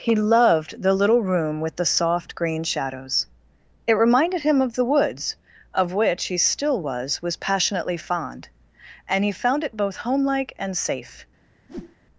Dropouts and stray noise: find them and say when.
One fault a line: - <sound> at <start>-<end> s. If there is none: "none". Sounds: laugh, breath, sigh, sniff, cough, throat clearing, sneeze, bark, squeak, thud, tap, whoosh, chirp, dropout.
- whoosh at 11.7-12.0 s